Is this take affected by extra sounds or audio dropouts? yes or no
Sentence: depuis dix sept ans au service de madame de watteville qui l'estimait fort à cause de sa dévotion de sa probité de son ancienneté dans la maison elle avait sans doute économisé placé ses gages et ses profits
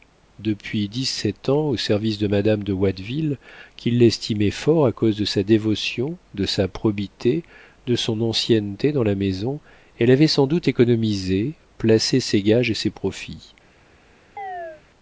yes